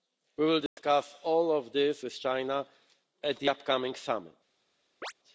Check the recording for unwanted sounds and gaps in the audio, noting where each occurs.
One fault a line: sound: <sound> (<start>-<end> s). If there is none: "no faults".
sound: dropout (0.7-0.8 s)
sound: chirp (5.0-5.1 s)